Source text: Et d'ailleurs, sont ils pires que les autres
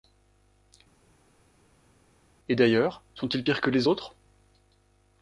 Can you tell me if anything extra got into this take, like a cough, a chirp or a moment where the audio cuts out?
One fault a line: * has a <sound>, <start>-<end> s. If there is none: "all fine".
all fine